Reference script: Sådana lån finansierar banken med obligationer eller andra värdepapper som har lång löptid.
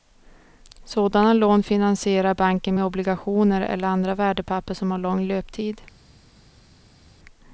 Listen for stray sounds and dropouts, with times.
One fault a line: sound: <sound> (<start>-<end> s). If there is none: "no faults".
no faults